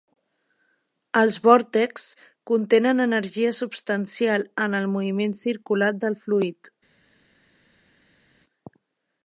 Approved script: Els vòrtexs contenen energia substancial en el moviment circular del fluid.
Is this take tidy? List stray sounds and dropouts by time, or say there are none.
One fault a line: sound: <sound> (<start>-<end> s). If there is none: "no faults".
no faults